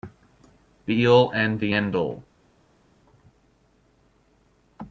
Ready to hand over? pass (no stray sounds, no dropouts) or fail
pass